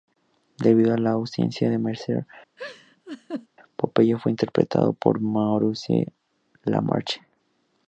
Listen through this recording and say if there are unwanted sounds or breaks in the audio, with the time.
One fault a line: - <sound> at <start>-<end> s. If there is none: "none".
- laugh at 2.6-3.5 s